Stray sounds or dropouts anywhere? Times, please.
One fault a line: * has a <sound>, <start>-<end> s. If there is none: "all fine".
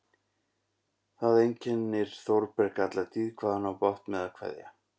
all fine